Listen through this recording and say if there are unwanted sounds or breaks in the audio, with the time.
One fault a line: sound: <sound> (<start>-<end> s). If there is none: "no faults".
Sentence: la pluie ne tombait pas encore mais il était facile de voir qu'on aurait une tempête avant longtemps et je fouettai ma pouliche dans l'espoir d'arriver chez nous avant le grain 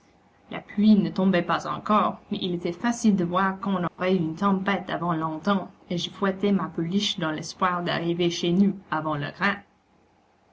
sound: dropout (3.9-4.0 s)